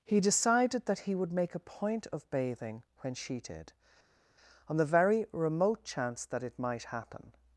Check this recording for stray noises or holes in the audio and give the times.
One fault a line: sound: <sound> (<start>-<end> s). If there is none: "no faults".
no faults